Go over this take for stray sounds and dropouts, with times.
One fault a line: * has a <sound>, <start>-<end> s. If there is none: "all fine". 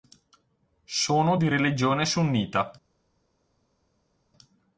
all fine